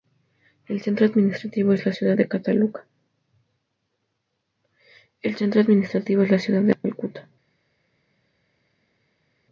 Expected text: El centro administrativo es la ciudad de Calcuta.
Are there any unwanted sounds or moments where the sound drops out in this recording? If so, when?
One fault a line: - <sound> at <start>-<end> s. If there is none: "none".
none